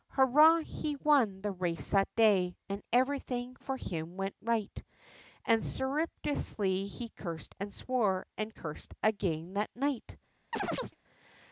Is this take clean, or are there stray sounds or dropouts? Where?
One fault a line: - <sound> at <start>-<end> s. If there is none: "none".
- chirp at 10.5-11.0 s